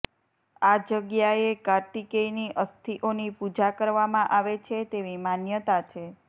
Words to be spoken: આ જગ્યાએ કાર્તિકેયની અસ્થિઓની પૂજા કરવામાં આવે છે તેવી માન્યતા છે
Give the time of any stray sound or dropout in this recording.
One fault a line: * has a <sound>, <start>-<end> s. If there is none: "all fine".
all fine